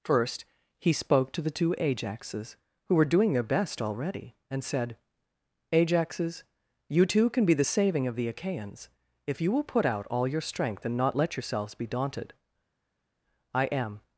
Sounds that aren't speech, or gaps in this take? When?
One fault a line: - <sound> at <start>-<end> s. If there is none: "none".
none